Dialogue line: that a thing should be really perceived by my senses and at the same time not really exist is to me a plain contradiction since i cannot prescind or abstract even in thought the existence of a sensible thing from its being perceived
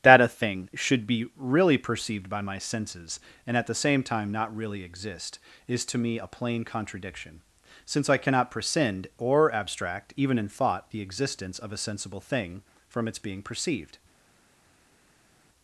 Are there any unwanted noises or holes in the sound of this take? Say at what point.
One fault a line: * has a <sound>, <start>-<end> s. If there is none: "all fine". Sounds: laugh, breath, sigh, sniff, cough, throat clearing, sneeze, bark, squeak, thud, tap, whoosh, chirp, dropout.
all fine